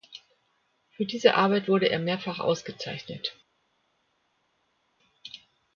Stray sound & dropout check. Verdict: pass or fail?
pass